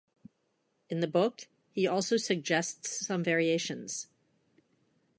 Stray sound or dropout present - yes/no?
no